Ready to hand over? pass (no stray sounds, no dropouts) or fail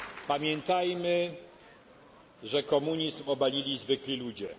pass